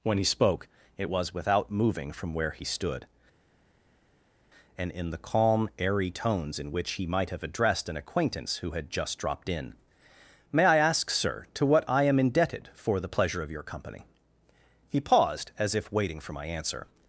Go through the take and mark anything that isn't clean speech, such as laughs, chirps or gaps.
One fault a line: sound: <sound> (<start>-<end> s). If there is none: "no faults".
no faults